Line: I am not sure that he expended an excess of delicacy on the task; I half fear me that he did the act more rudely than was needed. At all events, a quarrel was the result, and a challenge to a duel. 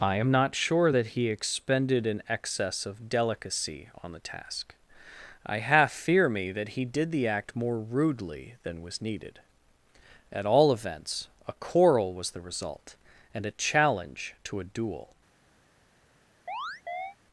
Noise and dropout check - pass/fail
fail